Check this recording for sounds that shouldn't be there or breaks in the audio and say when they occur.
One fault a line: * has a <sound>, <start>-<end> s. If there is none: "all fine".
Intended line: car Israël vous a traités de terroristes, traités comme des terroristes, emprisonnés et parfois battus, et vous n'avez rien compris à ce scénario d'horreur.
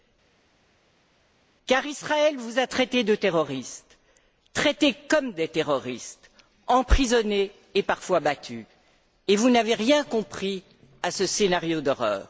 all fine